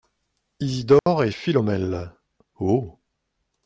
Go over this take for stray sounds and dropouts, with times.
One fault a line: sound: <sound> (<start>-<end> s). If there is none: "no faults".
sound: dropout (1.0-1.1 s)